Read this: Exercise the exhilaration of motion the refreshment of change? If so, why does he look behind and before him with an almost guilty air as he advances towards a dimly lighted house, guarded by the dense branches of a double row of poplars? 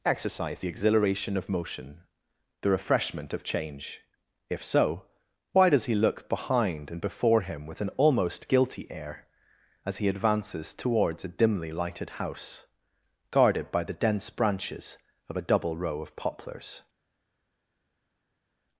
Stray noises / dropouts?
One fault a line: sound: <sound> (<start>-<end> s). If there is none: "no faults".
no faults